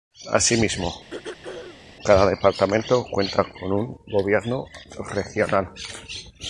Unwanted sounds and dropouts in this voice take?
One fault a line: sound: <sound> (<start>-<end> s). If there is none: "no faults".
sound: throat clearing (1.1-1.9 s)